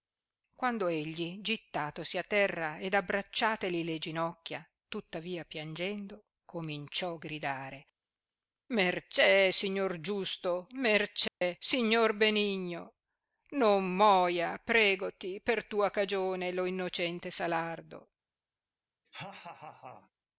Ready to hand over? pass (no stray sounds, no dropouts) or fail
fail